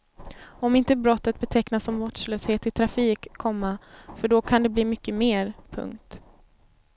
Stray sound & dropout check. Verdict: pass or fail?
pass